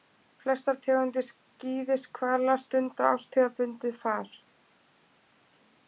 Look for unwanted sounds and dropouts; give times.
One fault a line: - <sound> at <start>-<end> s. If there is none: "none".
none